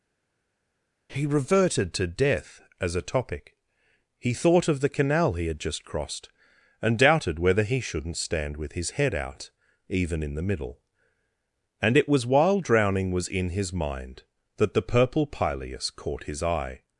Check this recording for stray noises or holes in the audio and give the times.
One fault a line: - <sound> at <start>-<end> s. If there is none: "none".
none